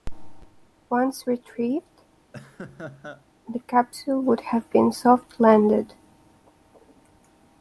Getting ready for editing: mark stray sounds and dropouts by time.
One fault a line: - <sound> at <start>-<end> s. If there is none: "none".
- laugh at 2.3-3.3 s